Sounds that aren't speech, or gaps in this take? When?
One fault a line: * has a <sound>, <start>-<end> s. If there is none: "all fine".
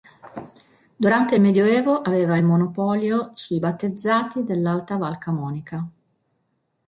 all fine